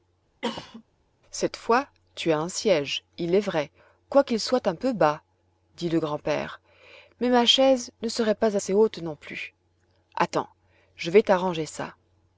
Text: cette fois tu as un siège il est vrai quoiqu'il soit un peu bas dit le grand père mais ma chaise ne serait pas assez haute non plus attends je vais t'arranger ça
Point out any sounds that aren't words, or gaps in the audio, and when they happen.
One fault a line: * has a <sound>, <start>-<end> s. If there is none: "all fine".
* has a cough, 0.4-0.8 s